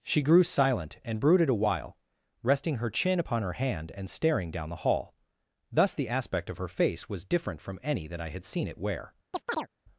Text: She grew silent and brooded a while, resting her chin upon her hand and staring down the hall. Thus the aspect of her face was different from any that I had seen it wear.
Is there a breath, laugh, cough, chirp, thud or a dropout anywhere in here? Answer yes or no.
yes